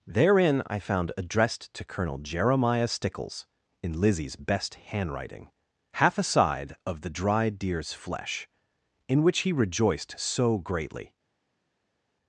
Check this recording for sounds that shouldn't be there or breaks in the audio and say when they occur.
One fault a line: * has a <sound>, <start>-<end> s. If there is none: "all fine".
all fine